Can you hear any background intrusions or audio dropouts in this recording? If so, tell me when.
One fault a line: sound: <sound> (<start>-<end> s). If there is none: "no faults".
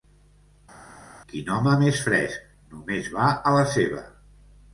no faults